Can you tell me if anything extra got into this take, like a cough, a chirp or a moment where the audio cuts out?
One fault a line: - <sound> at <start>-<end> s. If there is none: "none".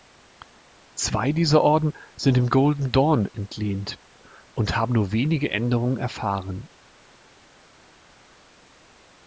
none